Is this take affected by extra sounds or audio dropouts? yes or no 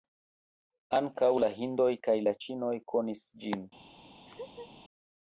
yes